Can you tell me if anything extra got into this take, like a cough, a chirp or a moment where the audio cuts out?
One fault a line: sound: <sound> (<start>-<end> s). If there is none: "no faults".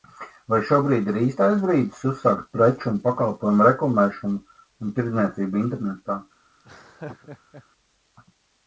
sound: laugh (6.6-7.7 s)